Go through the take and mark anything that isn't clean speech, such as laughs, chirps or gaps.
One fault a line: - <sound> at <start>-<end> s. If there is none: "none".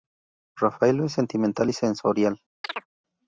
- chirp at 2.6-2.9 s